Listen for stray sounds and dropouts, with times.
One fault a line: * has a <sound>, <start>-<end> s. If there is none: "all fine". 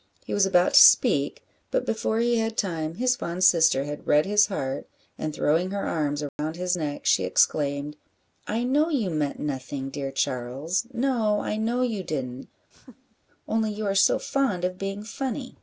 * has a dropout, 6.3-6.4 s
* has a laugh, 12.7-13.2 s